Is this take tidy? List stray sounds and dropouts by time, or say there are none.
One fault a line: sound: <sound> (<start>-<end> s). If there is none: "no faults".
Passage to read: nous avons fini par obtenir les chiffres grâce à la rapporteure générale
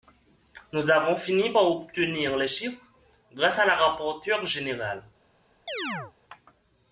sound: chirp (5.7-6.1 s)